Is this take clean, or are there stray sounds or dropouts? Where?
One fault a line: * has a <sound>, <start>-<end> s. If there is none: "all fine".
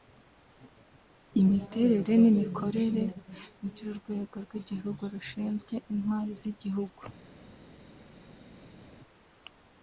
all fine